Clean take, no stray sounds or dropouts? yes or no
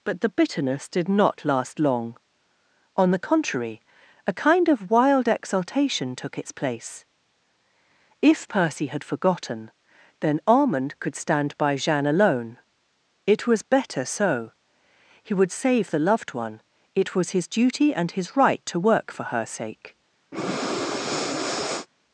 no